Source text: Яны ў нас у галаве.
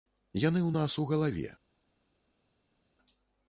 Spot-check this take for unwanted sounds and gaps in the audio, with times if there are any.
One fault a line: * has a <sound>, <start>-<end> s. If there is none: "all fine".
all fine